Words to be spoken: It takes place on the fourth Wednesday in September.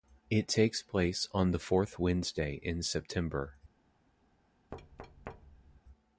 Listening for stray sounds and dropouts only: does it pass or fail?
fail